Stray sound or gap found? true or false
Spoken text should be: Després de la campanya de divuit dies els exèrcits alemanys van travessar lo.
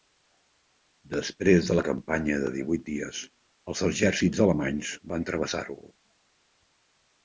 false